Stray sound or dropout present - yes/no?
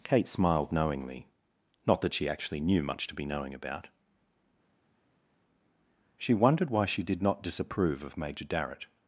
no